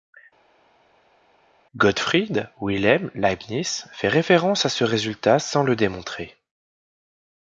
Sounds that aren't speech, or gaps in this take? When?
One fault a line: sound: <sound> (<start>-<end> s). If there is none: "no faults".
no faults